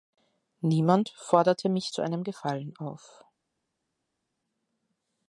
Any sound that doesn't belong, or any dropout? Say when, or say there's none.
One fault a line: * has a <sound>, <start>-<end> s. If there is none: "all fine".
all fine